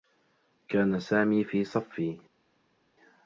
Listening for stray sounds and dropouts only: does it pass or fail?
pass